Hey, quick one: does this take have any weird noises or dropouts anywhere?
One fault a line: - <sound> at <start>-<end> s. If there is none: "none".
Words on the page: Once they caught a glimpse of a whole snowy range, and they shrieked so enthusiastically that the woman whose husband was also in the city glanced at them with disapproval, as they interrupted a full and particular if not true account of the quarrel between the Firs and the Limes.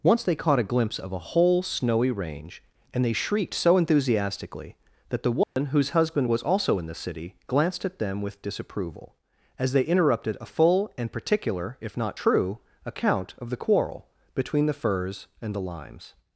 - dropout at 5.4-5.6 s